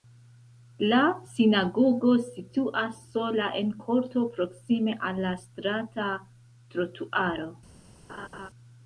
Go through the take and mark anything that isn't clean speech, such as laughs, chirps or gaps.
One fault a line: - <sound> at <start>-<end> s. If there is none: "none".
- laugh at 8.1-8.5 s